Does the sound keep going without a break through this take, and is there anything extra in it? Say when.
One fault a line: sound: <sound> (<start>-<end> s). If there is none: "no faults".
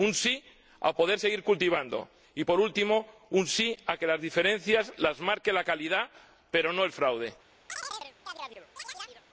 sound: chirp (7.7-9.2 s)